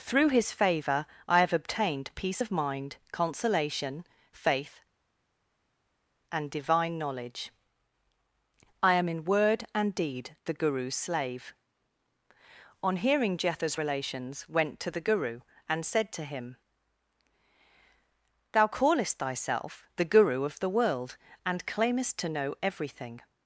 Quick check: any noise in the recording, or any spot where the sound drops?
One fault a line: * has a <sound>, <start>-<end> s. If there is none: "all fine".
all fine